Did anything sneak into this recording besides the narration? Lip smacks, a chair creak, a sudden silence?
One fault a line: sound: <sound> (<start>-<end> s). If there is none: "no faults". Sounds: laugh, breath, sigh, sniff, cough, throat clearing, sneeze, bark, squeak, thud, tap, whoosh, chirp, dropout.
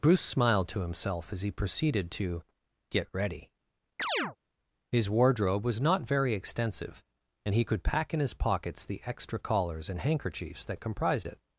sound: chirp (4.0-4.4 s)